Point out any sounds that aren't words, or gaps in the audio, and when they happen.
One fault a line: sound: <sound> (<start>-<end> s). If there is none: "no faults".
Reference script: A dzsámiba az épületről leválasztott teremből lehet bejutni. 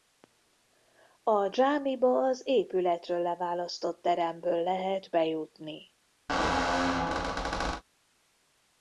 sound: squeak (6.3-7.8 s)